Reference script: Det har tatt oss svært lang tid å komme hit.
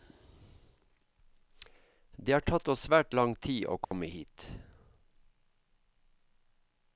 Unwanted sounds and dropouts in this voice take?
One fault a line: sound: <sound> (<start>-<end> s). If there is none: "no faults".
sound: dropout (3.8-3.9 s)